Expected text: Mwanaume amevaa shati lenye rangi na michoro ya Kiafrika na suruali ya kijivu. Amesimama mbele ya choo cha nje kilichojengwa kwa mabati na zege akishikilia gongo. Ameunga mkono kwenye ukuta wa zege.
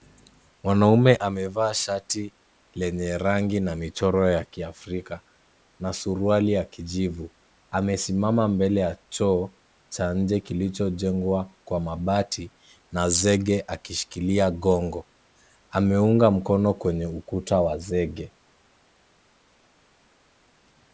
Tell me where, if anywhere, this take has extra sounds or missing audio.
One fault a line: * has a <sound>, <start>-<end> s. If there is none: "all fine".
all fine